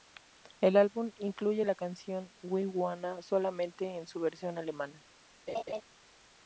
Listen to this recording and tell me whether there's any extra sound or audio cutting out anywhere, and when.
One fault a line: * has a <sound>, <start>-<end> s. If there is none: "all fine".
* has a laugh, 5.5-5.8 s